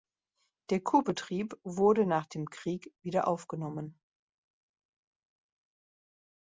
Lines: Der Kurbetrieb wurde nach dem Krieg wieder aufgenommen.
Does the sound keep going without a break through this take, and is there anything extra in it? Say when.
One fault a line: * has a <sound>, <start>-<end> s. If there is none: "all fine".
all fine